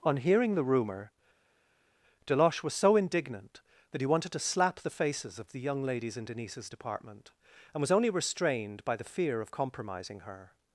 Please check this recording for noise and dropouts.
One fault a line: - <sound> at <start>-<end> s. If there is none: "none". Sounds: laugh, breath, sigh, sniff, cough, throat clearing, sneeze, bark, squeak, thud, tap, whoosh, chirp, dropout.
none